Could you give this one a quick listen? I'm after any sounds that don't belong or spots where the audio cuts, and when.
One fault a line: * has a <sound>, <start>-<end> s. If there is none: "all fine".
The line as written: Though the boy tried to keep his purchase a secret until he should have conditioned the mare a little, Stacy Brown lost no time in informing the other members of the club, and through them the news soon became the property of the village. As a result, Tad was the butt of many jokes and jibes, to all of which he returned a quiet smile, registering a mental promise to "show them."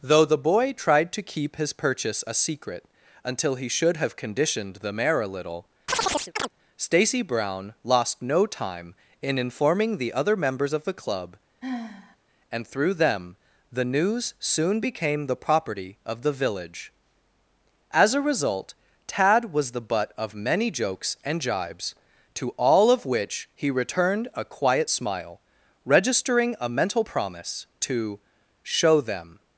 * has a chirp, 5.9-6.5 s
* has a sigh, 11.6-12.2 s